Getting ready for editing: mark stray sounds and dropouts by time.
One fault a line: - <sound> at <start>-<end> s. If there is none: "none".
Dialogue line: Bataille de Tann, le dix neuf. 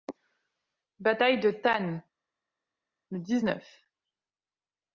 none